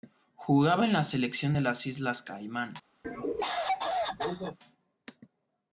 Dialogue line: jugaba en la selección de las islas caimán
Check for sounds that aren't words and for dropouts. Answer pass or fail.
fail